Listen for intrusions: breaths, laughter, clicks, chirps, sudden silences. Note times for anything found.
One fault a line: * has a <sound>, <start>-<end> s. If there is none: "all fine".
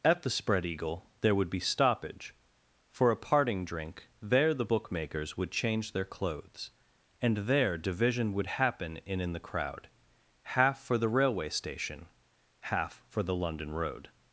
all fine